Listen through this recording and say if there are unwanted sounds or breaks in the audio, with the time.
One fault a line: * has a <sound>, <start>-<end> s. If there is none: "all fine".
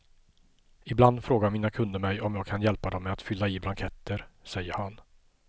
all fine